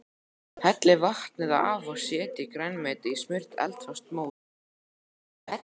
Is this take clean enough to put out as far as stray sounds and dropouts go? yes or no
no